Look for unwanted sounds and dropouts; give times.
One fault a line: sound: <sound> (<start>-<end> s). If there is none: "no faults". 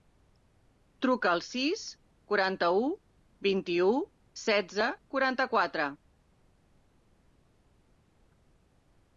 no faults